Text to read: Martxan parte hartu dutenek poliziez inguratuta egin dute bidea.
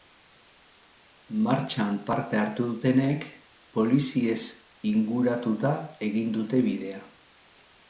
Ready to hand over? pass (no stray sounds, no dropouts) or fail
pass